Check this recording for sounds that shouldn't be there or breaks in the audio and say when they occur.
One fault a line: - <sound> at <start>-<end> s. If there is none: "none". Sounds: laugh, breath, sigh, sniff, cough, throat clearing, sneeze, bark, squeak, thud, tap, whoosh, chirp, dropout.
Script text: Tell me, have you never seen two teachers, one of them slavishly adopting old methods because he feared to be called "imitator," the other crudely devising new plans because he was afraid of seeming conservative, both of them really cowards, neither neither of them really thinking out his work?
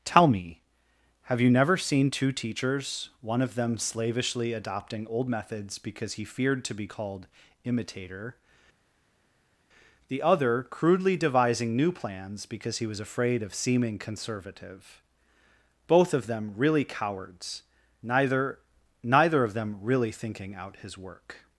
none